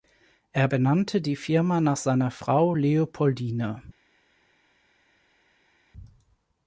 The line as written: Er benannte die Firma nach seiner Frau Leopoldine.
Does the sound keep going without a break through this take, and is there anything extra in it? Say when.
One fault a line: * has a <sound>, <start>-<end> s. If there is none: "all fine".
all fine